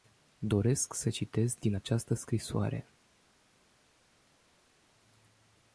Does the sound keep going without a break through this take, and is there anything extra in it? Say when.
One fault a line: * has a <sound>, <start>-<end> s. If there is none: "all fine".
all fine